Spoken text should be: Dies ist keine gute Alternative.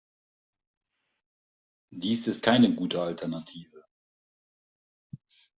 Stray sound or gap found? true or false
false